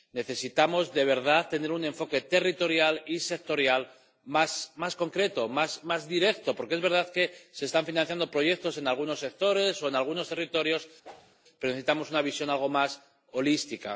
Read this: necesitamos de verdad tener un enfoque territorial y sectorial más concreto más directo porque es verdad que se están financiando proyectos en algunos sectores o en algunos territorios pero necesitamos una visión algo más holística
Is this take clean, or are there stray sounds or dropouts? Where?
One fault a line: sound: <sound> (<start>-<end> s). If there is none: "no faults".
sound: whoosh (11.0-11.4 s)